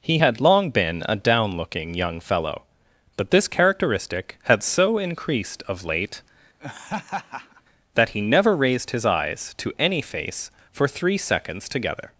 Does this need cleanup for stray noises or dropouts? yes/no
yes